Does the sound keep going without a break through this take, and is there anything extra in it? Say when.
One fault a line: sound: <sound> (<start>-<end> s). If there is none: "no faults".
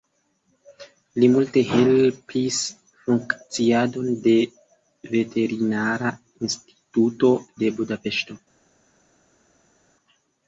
no faults